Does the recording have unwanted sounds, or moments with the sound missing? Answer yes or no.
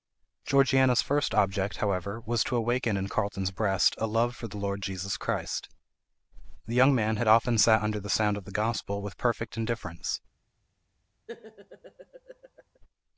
yes